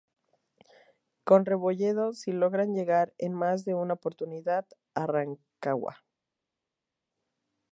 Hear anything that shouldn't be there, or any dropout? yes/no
no